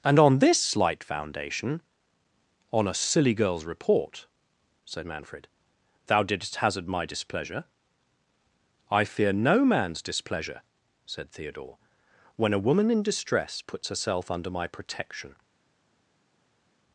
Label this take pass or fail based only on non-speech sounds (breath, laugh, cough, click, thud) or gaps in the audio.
pass